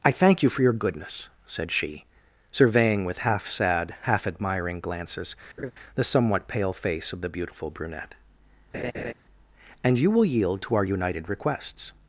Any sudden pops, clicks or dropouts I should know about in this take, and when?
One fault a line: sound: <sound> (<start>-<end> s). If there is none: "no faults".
sound: laugh (5.6-5.7 s)
sound: laugh (8.7-9.1 s)